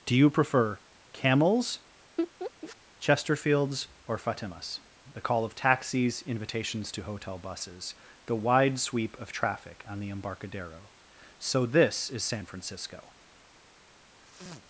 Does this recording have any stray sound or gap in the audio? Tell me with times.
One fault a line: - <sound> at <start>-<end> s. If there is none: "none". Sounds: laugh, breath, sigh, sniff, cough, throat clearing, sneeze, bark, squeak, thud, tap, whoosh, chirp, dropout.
- laugh at 2.2-2.8 s
- sniff at 14.2-14.6 s